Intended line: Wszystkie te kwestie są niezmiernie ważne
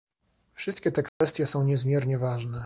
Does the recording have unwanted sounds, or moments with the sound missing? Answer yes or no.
yes